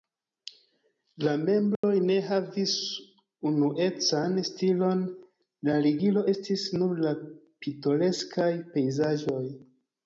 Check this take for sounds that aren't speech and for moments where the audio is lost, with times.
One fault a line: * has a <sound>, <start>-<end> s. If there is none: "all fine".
* has a dropout, 1.8-1.8 s